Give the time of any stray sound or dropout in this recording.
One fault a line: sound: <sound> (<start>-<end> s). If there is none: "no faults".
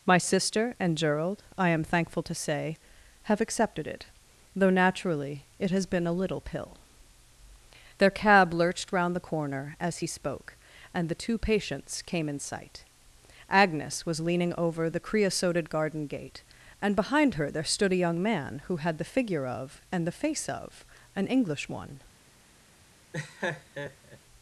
sound: laugh (23.1-24.2 s)